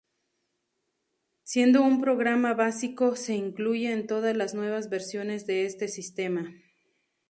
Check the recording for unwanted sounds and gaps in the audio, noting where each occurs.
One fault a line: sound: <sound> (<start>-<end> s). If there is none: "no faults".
no faults